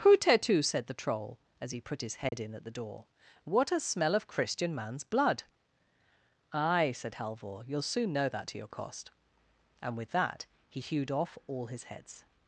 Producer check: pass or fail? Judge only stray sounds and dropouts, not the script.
fail